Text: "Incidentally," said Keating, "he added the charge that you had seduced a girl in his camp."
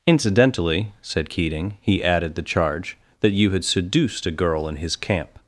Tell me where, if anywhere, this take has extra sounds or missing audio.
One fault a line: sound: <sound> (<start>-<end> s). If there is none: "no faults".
no faults